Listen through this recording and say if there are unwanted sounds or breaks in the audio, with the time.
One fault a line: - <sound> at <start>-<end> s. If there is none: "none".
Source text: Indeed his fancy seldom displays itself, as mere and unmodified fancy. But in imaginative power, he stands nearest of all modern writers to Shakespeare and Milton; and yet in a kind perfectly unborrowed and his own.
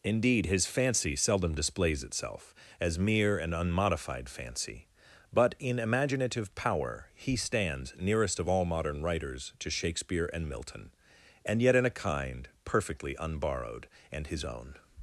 none